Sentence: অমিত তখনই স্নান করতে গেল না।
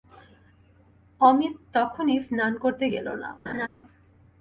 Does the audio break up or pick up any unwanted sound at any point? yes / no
yes